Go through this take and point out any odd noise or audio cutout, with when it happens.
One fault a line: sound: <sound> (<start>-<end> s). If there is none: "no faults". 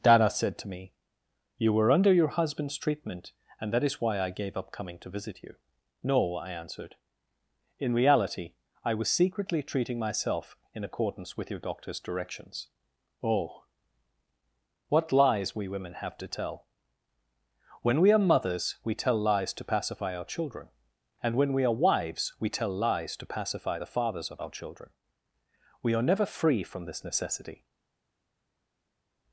no faults